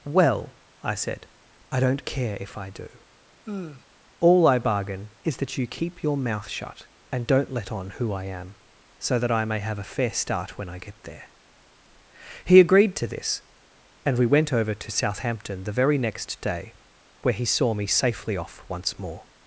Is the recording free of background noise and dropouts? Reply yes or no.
no